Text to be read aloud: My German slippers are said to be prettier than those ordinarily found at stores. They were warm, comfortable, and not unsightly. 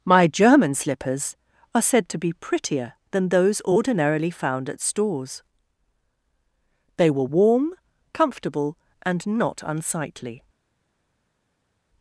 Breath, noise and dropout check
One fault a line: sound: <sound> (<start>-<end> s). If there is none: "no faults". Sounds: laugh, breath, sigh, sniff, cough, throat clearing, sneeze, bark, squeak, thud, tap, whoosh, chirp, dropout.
no faults